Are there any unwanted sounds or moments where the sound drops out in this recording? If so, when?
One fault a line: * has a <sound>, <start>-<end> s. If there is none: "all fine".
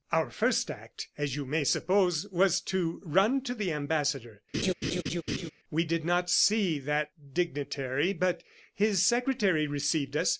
* has a laugh, 4.5-5.5 s